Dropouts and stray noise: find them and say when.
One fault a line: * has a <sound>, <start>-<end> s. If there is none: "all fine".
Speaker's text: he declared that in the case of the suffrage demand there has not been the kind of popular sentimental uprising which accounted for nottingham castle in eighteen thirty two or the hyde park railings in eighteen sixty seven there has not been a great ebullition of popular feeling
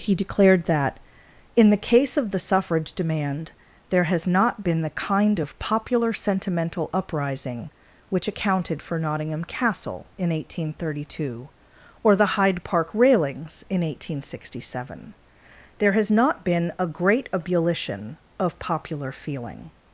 all fine